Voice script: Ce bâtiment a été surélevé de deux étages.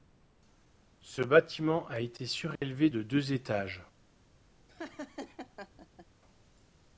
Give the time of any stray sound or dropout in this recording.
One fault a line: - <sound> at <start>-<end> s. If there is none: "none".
- dropout at 2.6-2.6 s
- laugh at 4.7-6.1 s